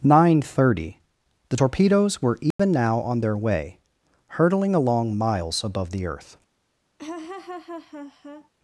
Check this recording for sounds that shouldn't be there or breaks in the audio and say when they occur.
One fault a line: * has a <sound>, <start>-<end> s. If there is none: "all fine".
* has a dropout, 2.5-2.6 s
* has a laugh, 7.0-8.5 s